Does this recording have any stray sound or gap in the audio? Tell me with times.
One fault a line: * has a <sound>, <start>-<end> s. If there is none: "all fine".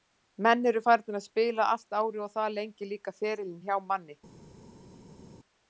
all fine